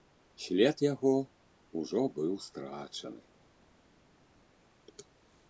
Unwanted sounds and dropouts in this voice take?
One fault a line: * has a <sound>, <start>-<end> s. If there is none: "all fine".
all fine